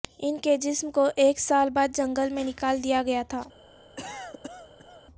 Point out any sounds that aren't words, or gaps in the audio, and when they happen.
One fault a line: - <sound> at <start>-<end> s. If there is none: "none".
- cough at 4.0-5.0 s